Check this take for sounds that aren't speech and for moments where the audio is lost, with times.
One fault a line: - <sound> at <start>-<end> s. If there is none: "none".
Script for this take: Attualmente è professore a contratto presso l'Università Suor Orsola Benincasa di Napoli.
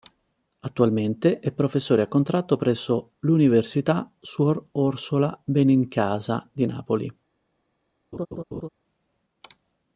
- laugh at 8.1-8.7 s